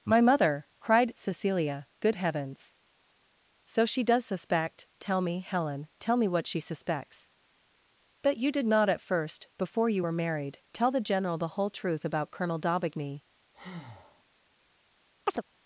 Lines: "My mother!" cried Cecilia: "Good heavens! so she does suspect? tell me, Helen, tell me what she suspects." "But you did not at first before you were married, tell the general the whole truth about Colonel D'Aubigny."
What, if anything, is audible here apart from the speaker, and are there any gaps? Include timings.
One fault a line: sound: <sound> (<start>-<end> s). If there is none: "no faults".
sound: breath (13.5-14.2 s)
sound: chirp (15.3-15.4 s)